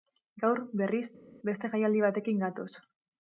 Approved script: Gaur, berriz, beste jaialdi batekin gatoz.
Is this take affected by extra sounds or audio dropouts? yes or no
no